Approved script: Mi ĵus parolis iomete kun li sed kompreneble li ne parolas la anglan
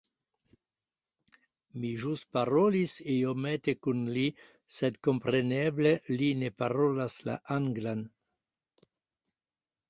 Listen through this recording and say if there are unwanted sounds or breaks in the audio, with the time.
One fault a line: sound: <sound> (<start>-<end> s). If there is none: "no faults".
no faults